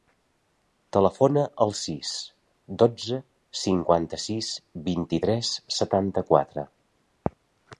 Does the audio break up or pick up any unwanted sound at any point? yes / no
no